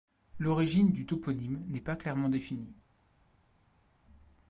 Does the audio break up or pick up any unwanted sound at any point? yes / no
no